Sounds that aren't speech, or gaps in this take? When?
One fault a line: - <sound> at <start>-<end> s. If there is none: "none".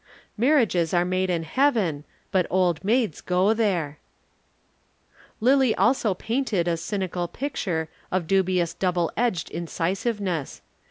none